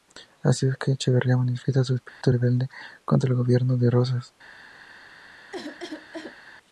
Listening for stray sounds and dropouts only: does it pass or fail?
fail